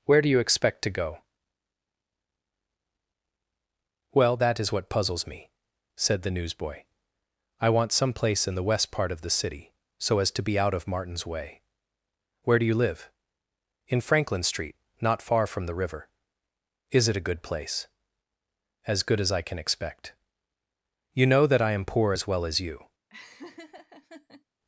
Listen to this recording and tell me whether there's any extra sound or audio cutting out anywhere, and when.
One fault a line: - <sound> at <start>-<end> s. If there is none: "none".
- laugh at 23.1-24.4 s